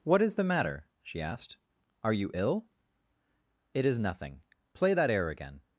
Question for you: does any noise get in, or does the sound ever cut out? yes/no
no